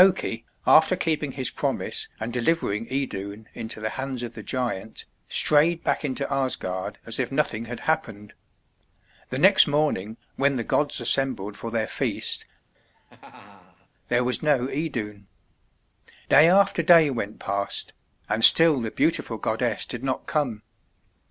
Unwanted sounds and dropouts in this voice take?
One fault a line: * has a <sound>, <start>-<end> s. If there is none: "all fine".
* has a laugh, 12.7-13.9 s